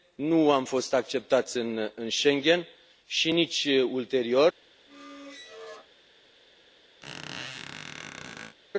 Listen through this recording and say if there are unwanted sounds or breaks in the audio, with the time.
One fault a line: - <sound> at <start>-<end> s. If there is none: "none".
- squeak at 4.9-5.9 s
- squeak at 7.0-8.6 s